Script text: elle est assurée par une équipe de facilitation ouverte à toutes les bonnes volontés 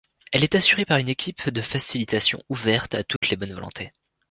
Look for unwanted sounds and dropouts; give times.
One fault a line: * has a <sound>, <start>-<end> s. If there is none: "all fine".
* has a dropout, 3.2-3.2 s